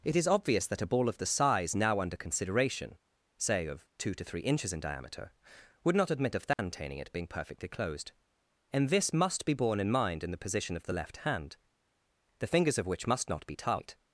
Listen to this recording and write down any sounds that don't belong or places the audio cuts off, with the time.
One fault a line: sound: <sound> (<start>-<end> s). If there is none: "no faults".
sound: dropout (6.5-6.6 s)